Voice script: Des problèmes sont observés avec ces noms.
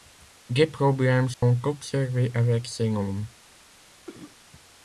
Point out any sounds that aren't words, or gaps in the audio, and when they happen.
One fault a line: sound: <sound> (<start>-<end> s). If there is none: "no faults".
sound: dropout (1.3-1.4 s)
sound: cough (4.1-4.4 s)